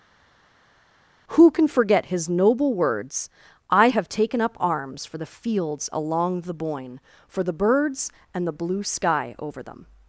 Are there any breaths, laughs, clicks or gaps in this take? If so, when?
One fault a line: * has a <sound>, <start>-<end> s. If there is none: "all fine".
all fine